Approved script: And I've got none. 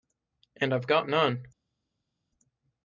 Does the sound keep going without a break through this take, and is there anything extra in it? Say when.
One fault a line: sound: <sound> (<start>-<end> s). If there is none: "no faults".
no faults